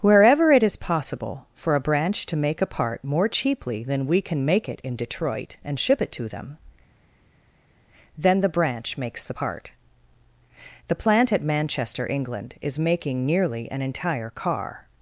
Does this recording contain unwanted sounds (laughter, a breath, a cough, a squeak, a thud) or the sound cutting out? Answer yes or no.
no